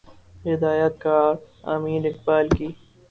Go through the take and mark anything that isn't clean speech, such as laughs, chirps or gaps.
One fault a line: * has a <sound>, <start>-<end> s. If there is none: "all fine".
all fine